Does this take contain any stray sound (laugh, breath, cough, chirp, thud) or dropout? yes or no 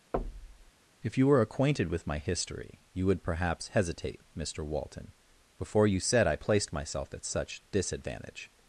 yes